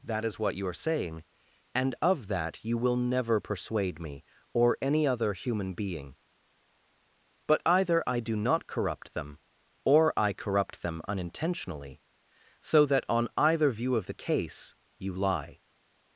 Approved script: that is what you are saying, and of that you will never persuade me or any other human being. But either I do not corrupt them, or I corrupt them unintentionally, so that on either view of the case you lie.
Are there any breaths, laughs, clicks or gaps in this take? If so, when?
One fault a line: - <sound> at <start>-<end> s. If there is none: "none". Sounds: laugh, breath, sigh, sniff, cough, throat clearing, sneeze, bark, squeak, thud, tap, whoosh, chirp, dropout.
none